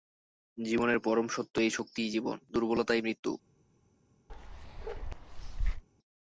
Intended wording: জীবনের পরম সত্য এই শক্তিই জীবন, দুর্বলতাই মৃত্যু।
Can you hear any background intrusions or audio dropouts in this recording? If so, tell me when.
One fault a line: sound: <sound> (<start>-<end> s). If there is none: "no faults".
sound: bark (4.3-5.8 s)